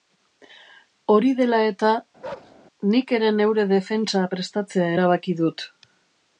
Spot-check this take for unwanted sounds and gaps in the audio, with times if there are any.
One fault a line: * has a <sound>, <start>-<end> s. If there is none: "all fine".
* has a bark, 2.2-2.6 s